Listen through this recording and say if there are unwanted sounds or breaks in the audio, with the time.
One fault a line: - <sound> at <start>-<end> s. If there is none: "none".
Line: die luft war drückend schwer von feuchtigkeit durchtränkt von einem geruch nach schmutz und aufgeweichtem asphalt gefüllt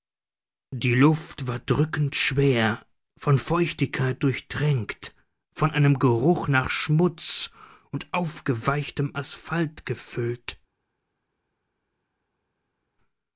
none